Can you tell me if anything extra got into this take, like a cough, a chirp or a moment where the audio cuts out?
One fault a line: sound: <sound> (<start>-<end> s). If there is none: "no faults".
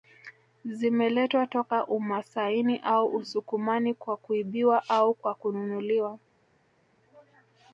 no faults